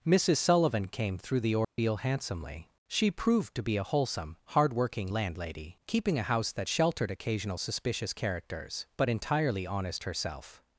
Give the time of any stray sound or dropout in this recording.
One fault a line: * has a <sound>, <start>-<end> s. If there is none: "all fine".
* has a dropout, 1.6-1.8 s